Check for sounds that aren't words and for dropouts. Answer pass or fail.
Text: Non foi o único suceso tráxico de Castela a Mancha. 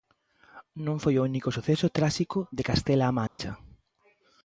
fail